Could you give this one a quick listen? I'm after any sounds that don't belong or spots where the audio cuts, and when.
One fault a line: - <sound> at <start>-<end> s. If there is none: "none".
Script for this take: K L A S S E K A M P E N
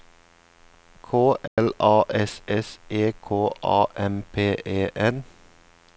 - dropout at 1.5-1.6 s